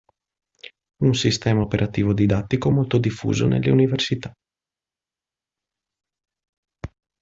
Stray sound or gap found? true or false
false